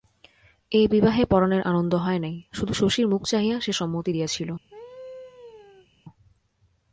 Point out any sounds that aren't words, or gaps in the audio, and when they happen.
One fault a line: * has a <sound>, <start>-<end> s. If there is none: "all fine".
* has a laugh, 4.7-5.9 s